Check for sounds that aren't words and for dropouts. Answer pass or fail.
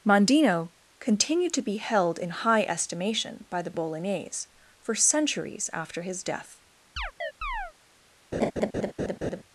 fail